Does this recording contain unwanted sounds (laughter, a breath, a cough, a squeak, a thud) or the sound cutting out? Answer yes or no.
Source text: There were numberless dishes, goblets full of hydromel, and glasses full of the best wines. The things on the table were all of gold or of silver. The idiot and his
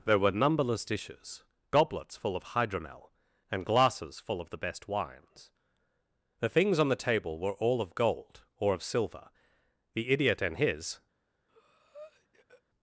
yes